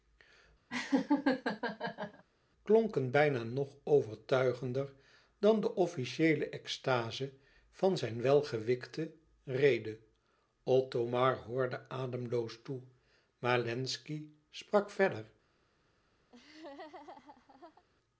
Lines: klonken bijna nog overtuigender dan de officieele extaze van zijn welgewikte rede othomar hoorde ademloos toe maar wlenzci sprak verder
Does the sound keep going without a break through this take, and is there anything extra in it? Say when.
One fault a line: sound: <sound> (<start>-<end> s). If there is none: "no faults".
sound: laugh (0.7-2.2 s)
sound: laugh (16.3-17.8 s)